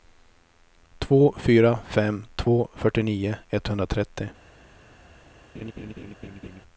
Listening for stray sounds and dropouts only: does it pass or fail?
fail